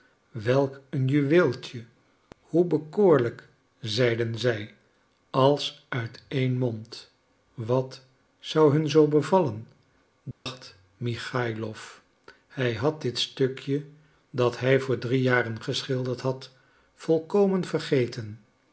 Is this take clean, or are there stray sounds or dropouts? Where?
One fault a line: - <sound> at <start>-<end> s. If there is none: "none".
- dropout at 10.3-10.5 s